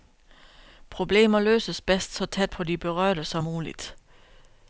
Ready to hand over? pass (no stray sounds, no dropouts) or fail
pass